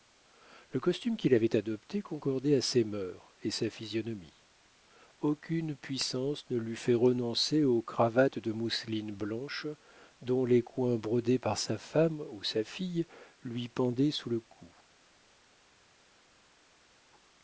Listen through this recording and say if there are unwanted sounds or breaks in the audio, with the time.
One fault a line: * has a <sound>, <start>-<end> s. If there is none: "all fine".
all fine